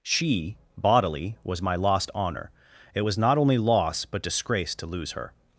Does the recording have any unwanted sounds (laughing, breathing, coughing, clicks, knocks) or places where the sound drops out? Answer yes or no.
no